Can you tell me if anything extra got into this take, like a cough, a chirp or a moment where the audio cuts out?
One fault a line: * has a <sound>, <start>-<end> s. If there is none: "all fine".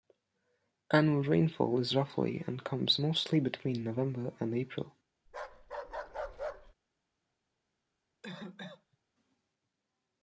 * has a bark, 5.3-6.7 s
* has a cough, 8.2-9.0 s